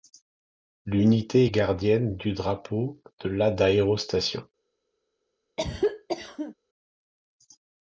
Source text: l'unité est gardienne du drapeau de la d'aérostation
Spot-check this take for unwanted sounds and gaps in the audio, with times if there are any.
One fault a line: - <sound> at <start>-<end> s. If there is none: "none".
- cough at 5.6-6.5 s